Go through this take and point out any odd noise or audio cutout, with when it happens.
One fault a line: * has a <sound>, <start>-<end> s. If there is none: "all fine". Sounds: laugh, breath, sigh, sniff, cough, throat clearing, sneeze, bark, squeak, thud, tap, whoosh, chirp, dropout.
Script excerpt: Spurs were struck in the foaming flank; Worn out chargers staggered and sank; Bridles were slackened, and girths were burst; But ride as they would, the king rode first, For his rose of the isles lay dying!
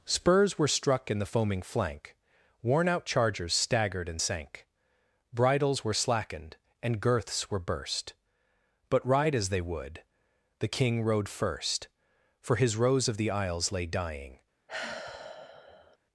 * has a sigh, 14.7-16.0 s